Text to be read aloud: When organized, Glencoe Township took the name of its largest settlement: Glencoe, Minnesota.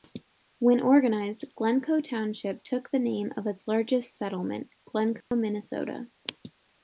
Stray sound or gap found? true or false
true